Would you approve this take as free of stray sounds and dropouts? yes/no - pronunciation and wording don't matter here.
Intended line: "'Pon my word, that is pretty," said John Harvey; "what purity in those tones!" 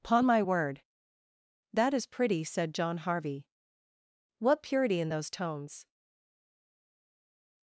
yes